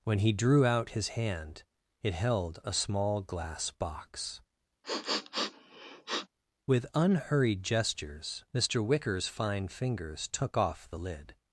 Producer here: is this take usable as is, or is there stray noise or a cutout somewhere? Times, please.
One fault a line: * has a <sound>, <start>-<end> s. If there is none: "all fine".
* has a sniff, 4.8-6.3 s